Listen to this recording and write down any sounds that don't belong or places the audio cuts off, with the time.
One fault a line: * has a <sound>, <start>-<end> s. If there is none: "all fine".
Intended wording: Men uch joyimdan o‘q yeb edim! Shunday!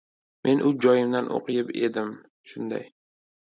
all fine